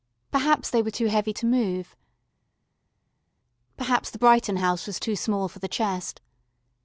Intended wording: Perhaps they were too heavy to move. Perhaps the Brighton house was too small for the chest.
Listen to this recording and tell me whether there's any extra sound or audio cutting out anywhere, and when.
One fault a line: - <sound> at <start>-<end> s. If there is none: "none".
none